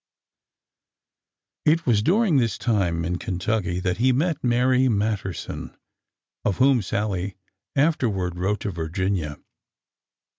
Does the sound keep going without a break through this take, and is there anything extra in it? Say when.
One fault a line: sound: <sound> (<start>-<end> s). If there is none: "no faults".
no faults